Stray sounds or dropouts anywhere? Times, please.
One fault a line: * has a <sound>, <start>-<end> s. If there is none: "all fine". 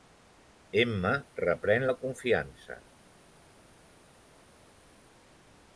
all fine